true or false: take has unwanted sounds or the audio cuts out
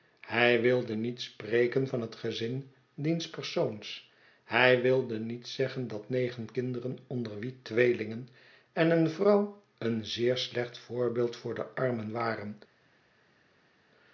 false